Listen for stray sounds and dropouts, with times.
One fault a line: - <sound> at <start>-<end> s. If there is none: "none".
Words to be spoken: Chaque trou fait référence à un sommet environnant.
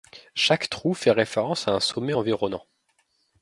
none